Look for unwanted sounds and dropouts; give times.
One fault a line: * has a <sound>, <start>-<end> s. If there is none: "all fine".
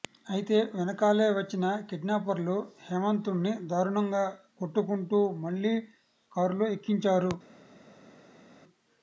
all fine